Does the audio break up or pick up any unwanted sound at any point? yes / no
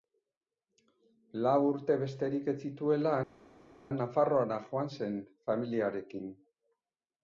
no